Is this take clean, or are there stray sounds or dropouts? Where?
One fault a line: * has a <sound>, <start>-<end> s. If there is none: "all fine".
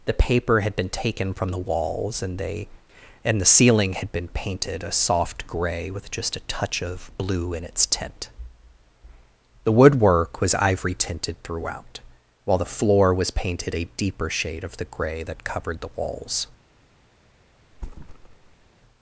* has a thud, 17.7-18.7 s